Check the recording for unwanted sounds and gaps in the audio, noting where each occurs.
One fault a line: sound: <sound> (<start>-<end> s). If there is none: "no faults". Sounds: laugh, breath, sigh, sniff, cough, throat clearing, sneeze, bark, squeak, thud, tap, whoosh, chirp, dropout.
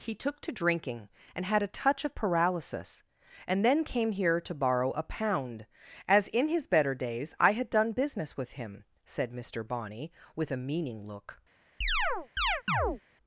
sound: chirp (11.8-13.0 s)